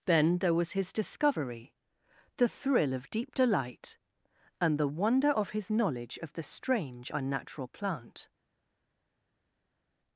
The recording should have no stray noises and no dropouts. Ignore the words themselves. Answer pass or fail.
pass